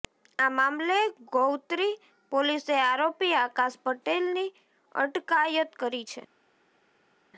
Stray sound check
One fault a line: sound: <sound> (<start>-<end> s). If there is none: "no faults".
no faults